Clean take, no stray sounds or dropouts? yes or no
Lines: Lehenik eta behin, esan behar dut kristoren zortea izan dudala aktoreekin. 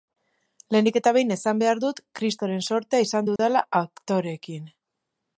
no